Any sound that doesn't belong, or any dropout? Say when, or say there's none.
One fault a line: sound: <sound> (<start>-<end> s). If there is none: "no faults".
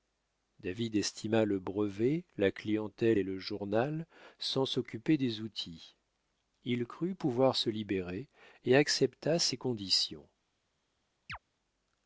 sound: chirp (11.3-11.4 s)